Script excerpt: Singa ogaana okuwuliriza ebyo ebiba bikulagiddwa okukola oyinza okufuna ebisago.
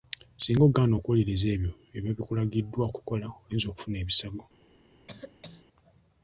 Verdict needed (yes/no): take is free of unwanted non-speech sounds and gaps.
no